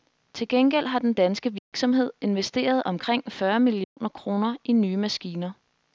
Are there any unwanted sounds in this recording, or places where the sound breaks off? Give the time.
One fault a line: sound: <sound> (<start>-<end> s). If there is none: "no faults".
sound: dropout (1.6-1.7 s)
sound: dropout (3.8-4.0 s)